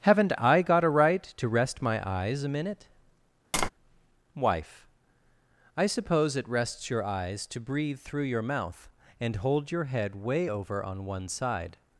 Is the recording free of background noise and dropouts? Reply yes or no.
no